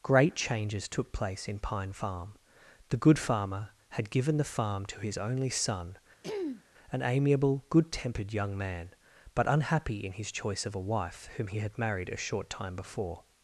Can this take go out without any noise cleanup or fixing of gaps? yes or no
no